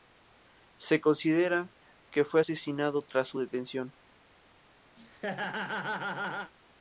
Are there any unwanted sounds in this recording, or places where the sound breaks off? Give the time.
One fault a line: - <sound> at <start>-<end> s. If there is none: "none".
- laugh at 5.0-6.5 s